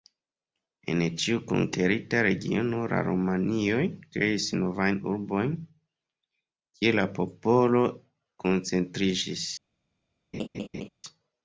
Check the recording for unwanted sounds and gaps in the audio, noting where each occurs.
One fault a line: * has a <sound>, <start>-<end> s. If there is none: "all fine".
* has a laugh, 10.3-10.9 s